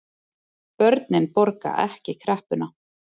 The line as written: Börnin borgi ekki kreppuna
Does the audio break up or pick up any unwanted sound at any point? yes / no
no